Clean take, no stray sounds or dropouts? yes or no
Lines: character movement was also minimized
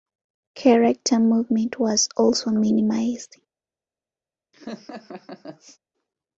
no